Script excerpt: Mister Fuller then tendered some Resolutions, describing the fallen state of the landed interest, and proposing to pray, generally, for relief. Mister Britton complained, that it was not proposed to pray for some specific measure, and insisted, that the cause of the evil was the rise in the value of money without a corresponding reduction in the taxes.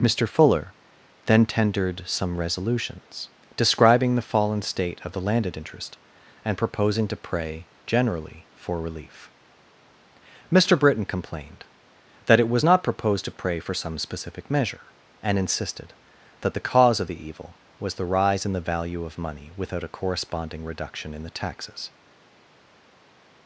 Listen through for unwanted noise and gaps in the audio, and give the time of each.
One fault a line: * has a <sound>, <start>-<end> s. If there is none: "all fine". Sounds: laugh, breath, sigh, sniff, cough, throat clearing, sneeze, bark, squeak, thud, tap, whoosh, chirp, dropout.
all fine